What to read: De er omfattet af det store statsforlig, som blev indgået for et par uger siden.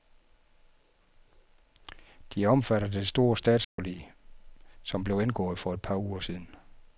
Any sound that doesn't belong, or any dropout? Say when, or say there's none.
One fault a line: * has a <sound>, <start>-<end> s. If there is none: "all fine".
* has a dropout, 3.6-3.8 s